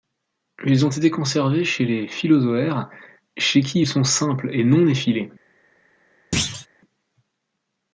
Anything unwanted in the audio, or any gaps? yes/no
yes